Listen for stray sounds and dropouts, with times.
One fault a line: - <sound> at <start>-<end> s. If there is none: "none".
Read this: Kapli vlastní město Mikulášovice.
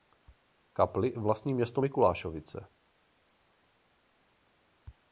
none